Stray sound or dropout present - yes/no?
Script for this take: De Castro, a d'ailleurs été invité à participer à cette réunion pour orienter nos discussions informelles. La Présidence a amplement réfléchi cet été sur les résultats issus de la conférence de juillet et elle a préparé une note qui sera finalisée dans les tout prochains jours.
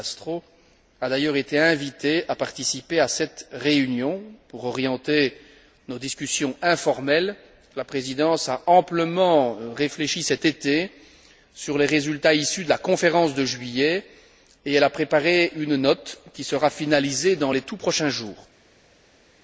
no